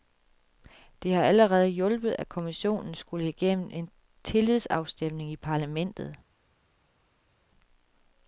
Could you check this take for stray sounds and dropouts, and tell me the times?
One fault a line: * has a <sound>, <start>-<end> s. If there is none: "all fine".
all fine